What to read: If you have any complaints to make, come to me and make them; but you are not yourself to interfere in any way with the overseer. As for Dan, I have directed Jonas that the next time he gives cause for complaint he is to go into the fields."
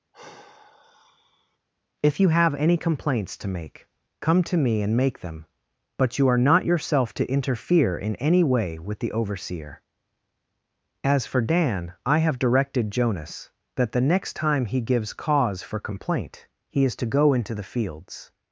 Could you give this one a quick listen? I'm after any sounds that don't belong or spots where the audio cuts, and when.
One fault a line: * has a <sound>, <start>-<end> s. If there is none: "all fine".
* has a sigh, 0.1-1.6 s